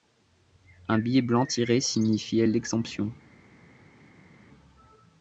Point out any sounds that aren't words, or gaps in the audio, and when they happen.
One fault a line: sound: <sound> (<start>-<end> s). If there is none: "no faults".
no faults